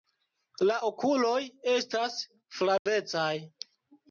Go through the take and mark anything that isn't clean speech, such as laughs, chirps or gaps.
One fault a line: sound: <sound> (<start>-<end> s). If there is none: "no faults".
sound: dropout (2.8-2.9 s)